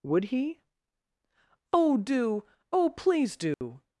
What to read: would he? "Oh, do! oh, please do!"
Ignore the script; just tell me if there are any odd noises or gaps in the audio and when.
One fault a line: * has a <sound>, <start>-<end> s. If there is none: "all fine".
* has a dropout, 3.5-3.6 s